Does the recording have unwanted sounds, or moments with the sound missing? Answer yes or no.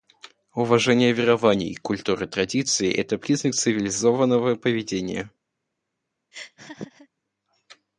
yes